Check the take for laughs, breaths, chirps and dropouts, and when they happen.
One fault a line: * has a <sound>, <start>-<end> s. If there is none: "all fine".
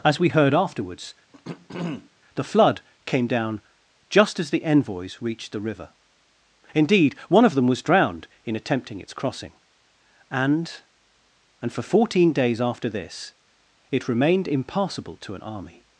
* has a throat clearing, 1.3-2.1 s